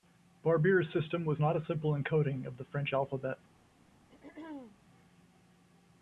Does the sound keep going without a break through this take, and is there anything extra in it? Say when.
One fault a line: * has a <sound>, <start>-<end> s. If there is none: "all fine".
* has a throat clearing, 4.1-4.8 s